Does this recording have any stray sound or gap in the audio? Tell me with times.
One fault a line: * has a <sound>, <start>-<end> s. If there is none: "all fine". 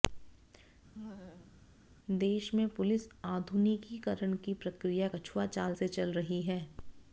* has a laugh, 0.9-1.6 s